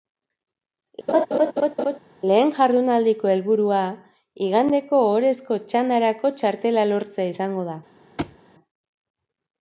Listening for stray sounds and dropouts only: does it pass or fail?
fail